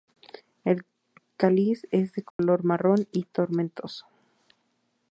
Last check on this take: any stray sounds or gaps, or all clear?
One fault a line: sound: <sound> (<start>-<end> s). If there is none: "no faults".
sound: dropout (2.3-2.4 s)